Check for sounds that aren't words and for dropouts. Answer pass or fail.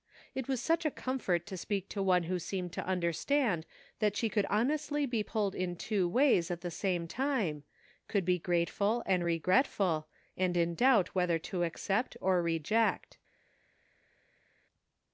pass